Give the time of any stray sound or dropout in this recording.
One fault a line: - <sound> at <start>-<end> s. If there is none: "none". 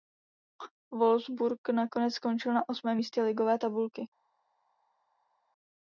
none